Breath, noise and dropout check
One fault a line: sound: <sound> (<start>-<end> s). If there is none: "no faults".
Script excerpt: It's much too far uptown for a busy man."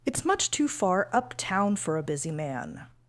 no faults